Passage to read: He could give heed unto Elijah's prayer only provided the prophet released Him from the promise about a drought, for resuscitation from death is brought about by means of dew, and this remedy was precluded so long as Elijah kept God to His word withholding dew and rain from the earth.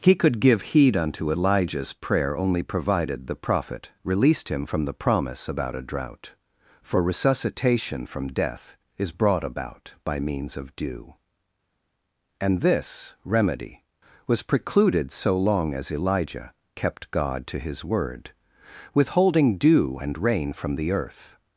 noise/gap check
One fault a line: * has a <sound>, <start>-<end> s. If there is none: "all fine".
all fine